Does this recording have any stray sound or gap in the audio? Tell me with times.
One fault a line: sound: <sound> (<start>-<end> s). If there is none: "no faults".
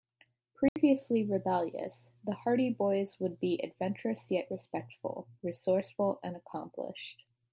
sound: dropout (0.7-0.8 s)